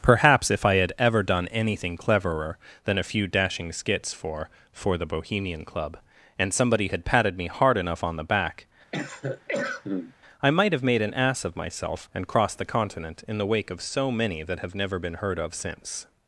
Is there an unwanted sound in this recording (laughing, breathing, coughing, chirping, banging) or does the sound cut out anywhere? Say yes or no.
yes